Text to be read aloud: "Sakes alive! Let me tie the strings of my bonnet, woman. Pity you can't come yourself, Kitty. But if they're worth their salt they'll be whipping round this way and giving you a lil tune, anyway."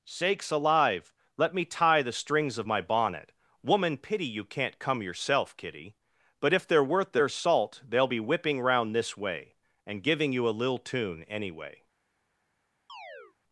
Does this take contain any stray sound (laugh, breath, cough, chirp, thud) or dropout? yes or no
yes